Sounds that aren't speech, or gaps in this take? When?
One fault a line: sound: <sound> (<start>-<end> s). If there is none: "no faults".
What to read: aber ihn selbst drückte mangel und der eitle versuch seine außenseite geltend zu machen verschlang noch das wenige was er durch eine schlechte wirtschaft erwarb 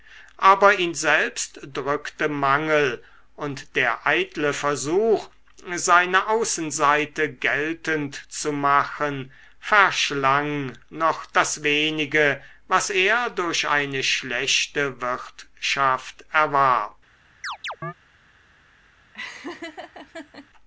sound: chirp (17.4-17.9 s)
sound: laugh (19.1-20.5 s)